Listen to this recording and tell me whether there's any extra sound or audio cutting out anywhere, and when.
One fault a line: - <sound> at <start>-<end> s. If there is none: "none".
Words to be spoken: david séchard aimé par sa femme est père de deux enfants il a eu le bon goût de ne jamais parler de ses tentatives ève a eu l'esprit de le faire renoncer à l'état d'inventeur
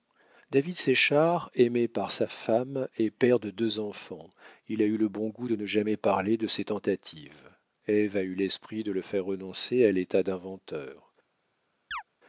- chirp at 11.9-12.0 s